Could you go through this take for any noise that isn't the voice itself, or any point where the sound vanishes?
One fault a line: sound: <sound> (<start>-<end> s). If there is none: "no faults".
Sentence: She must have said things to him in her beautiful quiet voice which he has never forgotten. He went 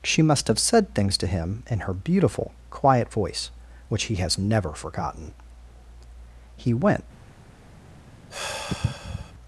sound: sigh (8.3-9.3 s)